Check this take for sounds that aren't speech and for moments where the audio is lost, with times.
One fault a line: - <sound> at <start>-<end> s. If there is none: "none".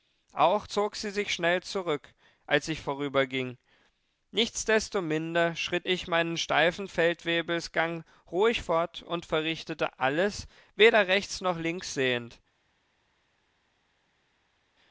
none